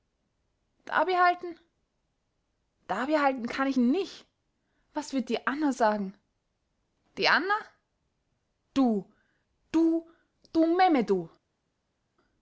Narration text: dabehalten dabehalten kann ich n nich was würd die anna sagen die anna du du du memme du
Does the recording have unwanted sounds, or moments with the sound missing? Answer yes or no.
no